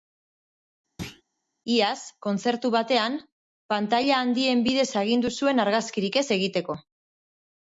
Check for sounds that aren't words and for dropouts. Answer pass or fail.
fail